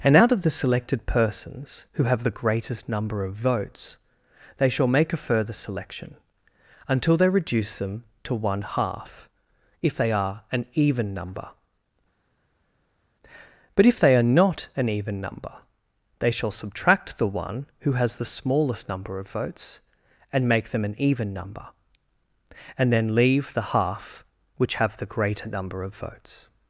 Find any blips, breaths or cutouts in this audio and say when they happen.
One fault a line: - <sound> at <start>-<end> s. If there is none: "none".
none